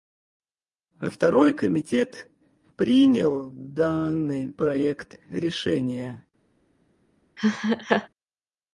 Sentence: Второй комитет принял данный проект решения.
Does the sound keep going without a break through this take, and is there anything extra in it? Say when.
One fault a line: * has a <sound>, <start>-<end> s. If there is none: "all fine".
* has a laugh, 7.4-8.1 s